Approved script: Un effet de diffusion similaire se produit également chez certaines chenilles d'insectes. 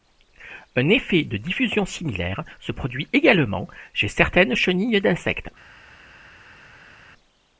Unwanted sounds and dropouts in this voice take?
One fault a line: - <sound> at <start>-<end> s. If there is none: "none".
none